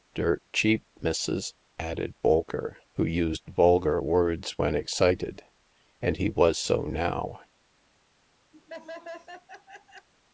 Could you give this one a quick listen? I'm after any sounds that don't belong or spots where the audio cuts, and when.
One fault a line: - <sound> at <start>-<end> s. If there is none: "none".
- laugh at 8.5-10.1 s